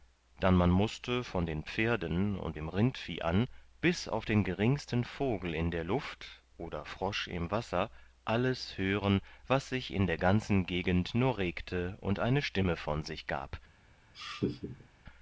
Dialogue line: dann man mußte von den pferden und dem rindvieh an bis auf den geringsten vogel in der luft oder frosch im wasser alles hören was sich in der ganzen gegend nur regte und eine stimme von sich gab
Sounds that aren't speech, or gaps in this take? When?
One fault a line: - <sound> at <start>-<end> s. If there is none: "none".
- laugh at 14.1-14.9 s